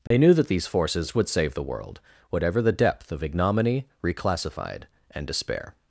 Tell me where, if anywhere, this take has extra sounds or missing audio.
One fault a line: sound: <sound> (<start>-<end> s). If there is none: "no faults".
sound: dropout (0.1-0.1 s)